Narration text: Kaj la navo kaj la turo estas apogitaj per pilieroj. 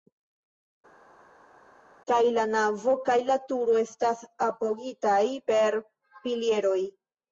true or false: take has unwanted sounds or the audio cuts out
false